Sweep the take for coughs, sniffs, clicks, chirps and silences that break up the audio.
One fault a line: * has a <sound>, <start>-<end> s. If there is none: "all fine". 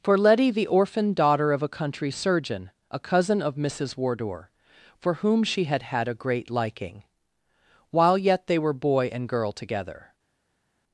all fine